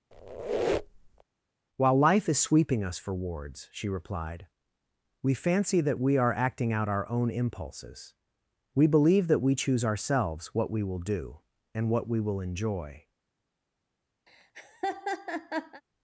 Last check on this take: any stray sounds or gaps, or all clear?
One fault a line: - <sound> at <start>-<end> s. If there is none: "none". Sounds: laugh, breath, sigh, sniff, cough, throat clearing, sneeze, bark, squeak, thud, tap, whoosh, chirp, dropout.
- squeak at 0.1-1.2 s
- laugh at 14.3-15.8 s